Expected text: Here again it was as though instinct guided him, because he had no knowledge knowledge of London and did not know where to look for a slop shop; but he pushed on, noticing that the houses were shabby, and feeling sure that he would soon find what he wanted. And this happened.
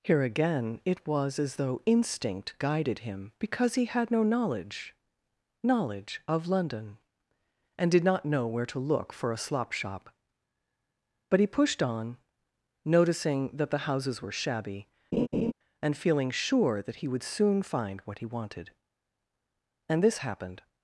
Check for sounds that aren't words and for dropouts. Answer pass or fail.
fail